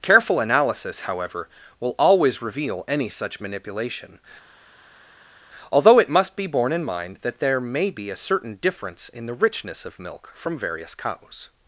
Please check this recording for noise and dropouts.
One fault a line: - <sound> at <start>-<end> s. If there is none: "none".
none